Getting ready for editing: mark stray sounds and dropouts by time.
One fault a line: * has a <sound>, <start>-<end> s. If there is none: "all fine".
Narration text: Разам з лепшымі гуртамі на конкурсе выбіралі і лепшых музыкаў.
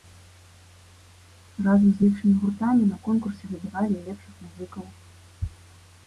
all fine